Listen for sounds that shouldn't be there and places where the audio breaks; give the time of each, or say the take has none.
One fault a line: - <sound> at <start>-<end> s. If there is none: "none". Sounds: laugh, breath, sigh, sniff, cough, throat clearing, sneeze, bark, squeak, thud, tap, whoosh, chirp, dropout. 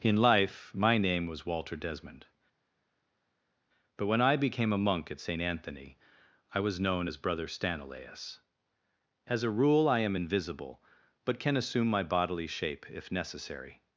none